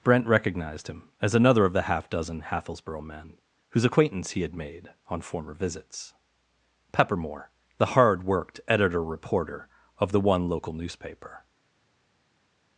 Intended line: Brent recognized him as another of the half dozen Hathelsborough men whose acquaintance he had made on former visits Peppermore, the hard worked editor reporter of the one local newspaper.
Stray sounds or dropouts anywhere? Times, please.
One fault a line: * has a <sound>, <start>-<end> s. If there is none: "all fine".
all fine